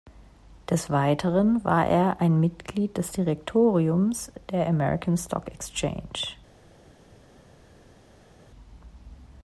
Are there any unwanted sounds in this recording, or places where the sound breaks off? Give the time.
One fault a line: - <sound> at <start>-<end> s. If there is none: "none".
none